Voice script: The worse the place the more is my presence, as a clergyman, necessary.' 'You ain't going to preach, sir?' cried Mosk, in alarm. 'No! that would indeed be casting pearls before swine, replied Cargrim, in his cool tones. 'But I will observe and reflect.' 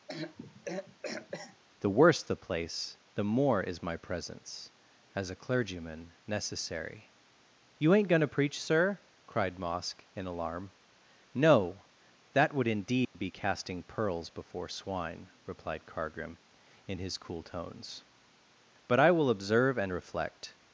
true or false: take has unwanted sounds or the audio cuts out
true